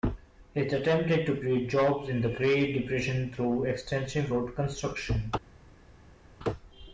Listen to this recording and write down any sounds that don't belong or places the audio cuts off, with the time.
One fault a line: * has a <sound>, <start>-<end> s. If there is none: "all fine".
all fine